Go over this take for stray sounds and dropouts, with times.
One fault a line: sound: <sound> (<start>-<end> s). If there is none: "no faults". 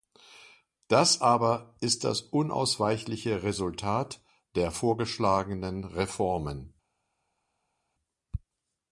no faults